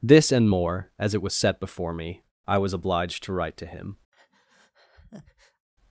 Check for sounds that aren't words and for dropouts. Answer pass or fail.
fail